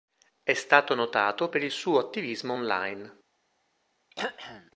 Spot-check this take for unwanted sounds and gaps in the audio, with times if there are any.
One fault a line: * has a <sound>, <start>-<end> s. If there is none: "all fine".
* has a throat clearing, 4.1-4.7 s